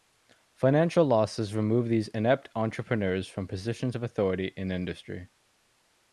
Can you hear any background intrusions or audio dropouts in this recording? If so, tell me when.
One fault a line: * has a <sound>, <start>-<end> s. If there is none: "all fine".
all fine